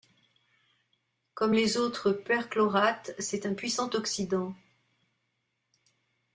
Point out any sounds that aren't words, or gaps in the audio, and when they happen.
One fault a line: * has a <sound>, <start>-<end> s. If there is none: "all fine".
all fine